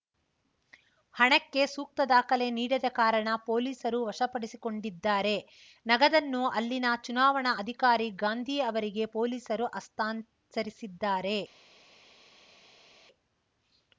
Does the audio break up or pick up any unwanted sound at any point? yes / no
no